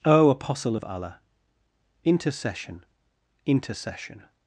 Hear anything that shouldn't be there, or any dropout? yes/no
no